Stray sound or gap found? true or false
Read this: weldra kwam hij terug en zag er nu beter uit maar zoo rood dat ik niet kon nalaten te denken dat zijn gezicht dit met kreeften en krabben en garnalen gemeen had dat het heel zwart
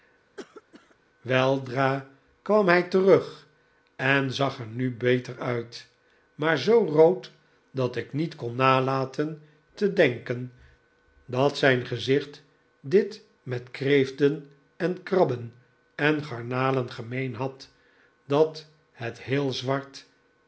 true